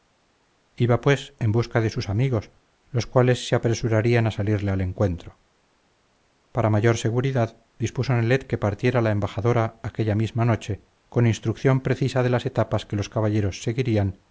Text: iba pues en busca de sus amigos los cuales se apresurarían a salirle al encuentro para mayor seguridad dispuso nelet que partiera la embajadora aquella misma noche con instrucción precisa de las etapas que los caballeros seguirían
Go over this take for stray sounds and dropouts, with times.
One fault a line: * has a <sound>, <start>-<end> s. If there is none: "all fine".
all fine